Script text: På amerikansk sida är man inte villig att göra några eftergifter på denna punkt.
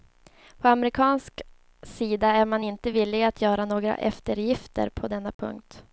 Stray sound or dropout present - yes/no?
yes